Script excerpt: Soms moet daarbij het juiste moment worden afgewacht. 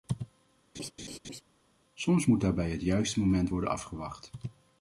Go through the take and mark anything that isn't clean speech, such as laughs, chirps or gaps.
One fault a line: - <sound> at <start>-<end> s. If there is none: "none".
- laugh at 0.7-1.4 s